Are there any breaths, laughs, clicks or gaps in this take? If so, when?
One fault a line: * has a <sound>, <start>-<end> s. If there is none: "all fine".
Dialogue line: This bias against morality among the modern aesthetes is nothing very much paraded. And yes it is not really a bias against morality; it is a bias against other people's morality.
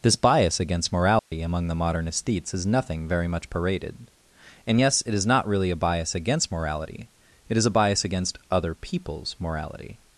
* has a dropout, 1.2-1.3 s